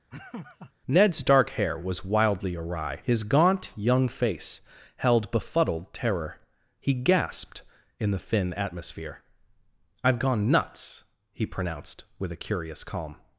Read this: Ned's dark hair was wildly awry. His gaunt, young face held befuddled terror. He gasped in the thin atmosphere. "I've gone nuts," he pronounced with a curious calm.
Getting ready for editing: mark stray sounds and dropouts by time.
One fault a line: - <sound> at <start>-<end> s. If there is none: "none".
- laugh at 0.1-0.7 s